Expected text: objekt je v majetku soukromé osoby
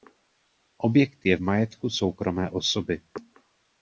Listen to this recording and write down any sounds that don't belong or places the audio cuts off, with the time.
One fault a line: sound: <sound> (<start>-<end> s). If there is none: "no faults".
no faults